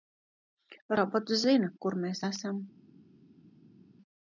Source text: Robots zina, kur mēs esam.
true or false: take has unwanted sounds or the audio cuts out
false